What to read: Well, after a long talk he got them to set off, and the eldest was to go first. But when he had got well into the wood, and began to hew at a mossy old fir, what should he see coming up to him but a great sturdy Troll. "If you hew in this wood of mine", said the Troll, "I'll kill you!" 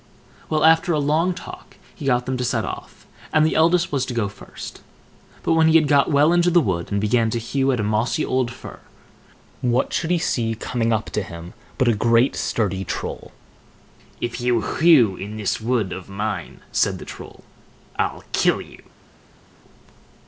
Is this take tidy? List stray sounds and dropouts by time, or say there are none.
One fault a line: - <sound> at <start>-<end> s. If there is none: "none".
none